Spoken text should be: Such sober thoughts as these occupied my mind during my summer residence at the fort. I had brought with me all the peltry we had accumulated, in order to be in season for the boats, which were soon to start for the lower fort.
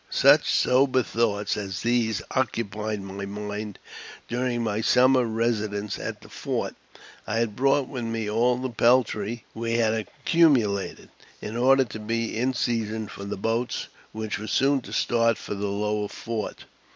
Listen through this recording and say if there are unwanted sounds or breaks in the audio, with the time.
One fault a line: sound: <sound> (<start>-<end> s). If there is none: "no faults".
no faults